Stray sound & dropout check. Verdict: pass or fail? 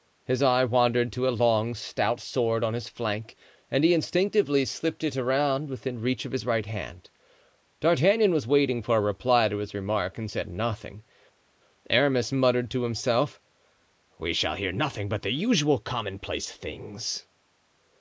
pass